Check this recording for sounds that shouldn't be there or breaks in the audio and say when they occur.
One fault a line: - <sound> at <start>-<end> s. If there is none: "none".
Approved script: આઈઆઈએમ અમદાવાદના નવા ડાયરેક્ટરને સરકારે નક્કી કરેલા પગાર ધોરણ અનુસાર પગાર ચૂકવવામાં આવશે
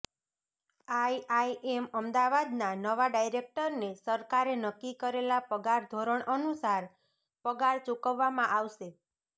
none